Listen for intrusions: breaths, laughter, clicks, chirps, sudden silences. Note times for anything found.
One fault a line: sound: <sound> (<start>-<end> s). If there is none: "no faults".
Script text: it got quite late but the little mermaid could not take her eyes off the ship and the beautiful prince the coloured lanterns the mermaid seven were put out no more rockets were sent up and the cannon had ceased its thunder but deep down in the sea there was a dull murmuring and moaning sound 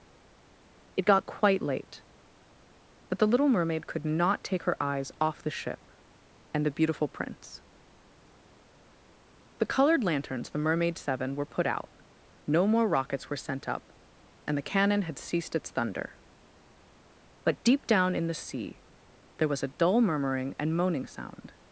no faults